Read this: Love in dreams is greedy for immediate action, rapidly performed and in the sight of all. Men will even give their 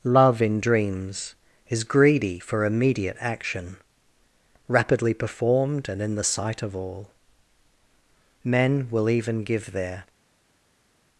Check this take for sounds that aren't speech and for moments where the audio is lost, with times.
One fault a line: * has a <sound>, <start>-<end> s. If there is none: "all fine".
all fine